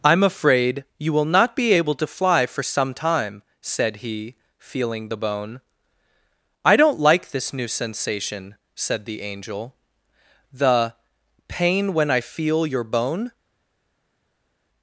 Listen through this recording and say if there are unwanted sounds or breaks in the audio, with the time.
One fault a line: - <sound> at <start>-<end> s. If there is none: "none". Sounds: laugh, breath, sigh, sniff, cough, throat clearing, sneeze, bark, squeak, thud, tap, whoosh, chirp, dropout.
none